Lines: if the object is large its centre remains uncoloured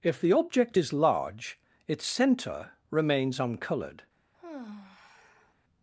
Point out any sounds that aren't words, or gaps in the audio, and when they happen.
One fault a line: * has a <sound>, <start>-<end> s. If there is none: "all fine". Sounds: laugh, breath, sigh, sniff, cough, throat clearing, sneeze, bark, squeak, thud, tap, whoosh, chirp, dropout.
* has a sigh, 4.3-5.5 s